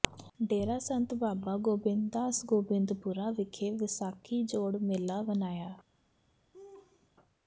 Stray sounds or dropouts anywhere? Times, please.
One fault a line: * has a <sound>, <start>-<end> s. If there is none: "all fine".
* has a laugh, 6.5-7.1 s